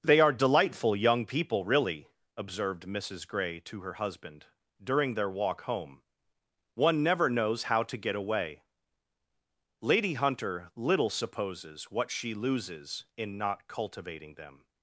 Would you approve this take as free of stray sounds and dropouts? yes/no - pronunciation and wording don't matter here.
yes